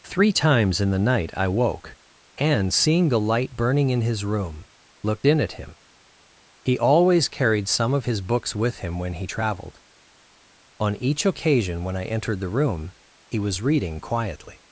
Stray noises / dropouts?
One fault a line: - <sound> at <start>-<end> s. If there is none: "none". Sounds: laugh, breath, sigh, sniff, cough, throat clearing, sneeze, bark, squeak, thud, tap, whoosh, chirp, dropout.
none